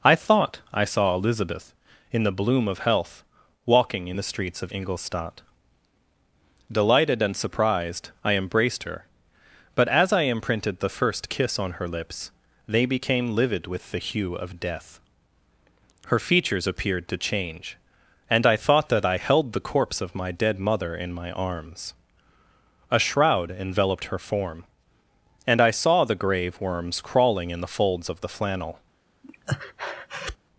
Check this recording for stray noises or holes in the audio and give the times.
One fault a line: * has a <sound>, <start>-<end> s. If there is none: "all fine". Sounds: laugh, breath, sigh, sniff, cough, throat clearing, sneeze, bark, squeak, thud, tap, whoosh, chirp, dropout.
* has a breath, 29.2-30.4 s